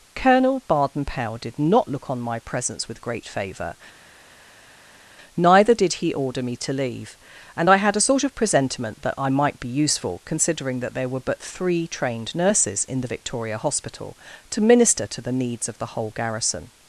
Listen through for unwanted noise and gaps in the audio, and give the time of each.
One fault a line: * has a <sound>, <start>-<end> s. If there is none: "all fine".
all fine